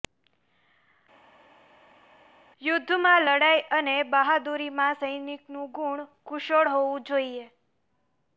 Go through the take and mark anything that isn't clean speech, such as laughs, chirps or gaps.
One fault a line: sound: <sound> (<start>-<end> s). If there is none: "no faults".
no faults